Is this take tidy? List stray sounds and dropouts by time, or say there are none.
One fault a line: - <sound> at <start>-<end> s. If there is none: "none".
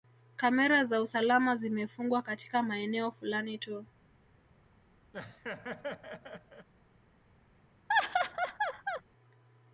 - laugh at 5.1-6.7 s
- laugh at 7.9-9.0 s